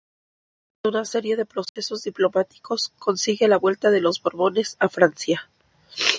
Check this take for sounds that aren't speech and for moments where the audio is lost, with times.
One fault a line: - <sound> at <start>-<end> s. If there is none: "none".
- dropout at 1.7-1.8 s